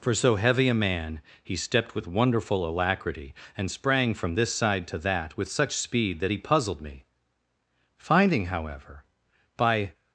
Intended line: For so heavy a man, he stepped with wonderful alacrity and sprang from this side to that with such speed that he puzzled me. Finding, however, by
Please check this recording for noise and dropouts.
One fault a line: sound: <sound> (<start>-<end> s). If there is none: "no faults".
no faults